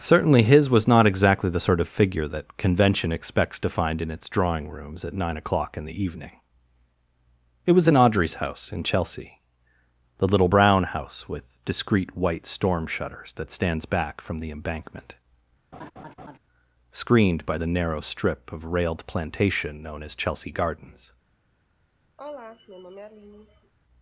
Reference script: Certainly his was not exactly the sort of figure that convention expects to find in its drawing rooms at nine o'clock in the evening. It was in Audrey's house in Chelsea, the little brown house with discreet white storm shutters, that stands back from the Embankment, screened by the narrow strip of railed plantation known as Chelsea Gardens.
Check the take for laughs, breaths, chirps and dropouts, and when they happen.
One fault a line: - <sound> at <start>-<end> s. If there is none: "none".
- laugh at 15.7-16.4 s
- sigh at 22.2-23.7 s